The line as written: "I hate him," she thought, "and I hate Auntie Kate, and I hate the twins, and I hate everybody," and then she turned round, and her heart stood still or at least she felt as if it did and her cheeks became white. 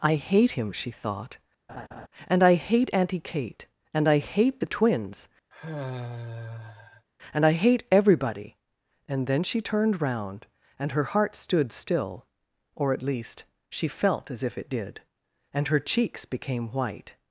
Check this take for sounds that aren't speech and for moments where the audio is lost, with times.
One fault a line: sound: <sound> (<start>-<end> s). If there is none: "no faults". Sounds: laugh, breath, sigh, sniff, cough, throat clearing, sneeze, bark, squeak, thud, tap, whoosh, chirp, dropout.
sound: laugh (1.7-2.1 s)
sound: sigh (5.5-7.1 s)